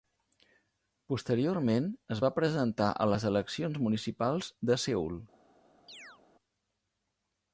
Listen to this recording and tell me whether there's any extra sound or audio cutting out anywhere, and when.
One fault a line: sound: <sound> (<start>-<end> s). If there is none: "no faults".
sound: chirp (5.9-6.2 s)